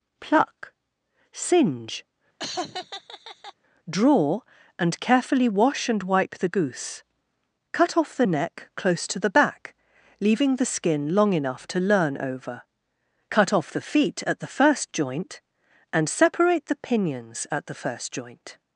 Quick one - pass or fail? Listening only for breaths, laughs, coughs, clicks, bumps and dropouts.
fail